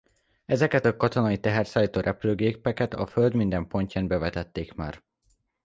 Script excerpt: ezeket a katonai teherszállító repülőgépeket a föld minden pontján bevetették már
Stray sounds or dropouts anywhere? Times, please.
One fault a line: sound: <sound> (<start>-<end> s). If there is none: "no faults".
no faults